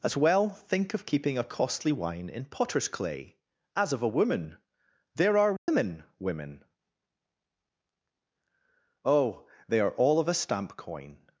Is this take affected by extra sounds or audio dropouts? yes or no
yes